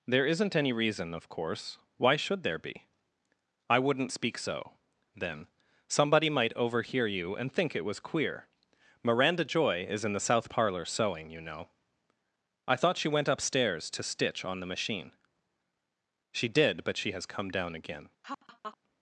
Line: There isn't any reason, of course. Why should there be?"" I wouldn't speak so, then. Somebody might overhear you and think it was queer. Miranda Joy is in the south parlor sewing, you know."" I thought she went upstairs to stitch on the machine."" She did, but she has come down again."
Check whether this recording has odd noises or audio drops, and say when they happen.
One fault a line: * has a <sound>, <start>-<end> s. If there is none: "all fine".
* has a laugh, 18.2-18.8 s